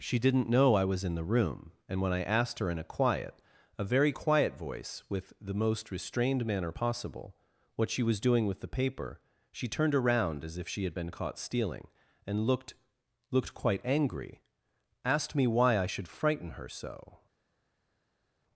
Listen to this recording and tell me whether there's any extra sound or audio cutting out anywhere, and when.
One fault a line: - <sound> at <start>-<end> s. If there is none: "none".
none